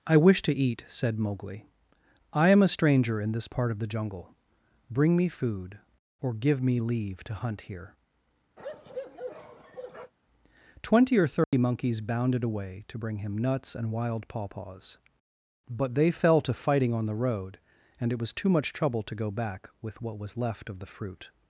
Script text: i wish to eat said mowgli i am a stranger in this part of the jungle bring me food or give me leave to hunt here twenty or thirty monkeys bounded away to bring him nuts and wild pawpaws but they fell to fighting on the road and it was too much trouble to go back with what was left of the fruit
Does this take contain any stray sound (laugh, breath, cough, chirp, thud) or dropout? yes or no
yes